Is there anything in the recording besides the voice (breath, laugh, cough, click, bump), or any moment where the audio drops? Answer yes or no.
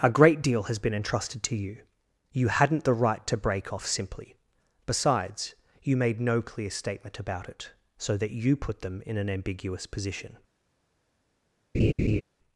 yes